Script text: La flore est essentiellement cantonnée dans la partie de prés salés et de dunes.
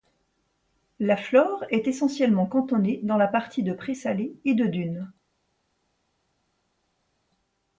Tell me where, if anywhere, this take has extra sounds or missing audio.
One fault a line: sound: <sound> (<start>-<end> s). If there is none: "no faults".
no faults